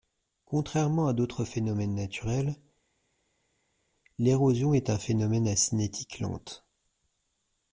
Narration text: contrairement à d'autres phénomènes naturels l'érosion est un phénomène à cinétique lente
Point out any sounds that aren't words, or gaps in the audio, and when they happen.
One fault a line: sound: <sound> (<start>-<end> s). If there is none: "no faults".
no faults